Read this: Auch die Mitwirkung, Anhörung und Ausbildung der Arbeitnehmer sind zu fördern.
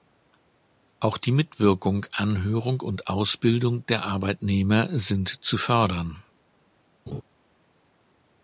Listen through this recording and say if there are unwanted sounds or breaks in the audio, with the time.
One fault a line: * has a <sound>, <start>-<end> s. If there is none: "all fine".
* has a laugh, 7.1-7.2 s